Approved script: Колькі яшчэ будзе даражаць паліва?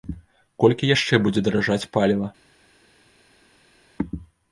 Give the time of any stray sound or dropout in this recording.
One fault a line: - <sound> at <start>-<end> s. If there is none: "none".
none